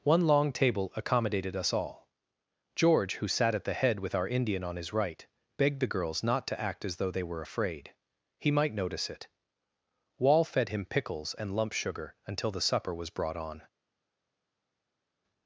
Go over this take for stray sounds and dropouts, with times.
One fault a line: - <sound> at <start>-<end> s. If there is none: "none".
none